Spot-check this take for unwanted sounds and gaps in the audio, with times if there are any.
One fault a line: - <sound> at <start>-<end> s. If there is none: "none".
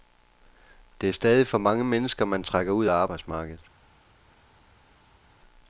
none